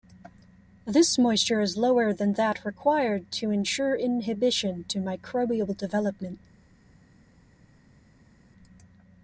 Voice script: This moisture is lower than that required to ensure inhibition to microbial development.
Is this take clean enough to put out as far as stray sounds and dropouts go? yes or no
yes